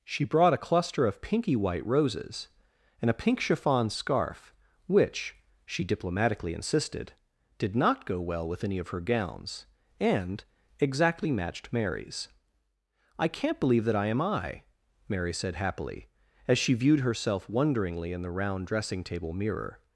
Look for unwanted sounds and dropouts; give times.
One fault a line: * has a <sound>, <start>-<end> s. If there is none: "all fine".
all fine